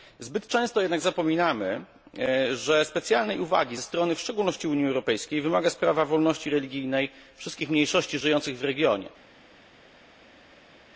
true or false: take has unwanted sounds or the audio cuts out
false